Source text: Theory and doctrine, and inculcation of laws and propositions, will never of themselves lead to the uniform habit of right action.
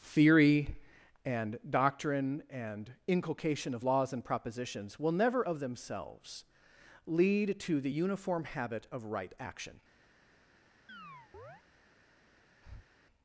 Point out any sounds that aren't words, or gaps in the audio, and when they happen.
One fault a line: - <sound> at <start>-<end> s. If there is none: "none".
- chirp at 10.9-11.6 s
- breath at 12.6-12.9 s